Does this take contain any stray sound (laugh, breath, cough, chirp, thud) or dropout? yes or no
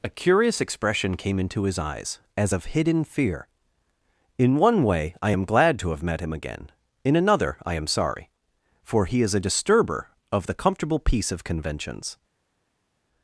no